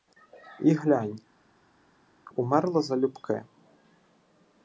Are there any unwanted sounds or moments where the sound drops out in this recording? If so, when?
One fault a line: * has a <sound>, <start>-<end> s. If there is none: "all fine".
all fine